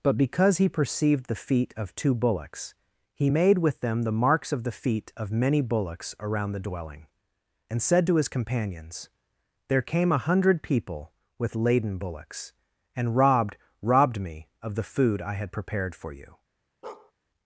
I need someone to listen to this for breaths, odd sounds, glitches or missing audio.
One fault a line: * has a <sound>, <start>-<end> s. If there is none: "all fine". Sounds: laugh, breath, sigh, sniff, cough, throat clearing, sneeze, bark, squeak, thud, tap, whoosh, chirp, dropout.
* has a bark, 16.8-17.1 s